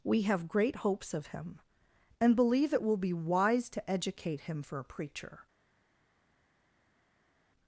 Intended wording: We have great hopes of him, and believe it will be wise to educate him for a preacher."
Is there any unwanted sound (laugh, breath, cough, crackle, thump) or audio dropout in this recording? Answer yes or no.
no